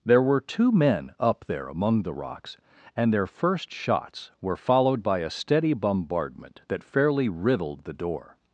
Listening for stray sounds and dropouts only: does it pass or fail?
pass